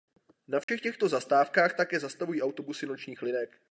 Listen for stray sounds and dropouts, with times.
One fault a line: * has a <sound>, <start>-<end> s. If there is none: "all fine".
* has a dropout, 0.6-0.7 s